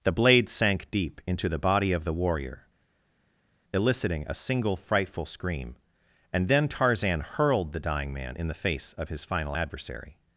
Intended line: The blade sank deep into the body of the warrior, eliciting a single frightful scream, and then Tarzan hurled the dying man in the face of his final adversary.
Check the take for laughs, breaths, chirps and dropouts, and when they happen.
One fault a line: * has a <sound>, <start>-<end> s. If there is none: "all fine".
all fine